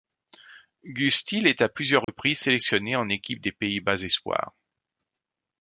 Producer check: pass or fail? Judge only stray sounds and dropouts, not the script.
fail